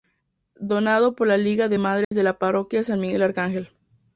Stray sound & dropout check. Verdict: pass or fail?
fail